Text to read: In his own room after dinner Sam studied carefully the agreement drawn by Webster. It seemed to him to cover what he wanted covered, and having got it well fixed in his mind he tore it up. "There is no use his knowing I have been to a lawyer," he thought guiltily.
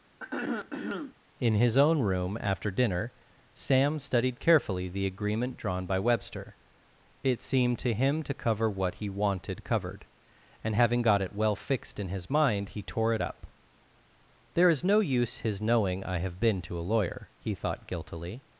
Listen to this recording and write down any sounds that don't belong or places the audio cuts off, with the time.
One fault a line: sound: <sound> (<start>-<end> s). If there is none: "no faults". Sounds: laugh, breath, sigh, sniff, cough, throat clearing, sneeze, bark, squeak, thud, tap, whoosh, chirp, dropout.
sound: throat clearing (0.2-1.2 s)